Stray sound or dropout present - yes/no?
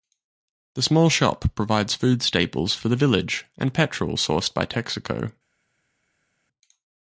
no